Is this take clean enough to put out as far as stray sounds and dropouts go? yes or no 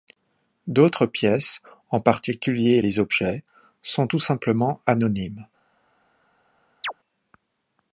no